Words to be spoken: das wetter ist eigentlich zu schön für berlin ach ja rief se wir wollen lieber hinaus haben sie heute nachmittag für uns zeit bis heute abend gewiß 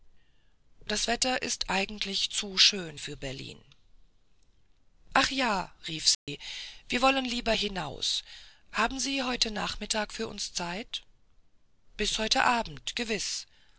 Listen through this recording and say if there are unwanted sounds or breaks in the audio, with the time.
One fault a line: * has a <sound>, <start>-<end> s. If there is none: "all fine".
* has a dropout, 6.1-6.3 s